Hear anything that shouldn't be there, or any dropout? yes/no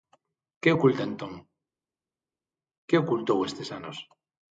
no